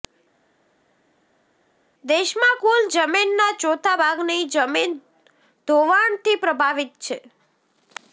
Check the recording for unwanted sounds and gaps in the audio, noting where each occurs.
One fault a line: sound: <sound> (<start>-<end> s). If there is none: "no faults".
no faults